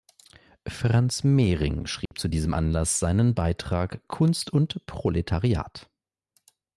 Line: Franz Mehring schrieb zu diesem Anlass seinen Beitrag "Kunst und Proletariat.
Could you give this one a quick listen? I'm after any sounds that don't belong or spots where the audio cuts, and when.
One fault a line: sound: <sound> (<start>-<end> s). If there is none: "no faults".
sound: dropout (2.1-2.1 s)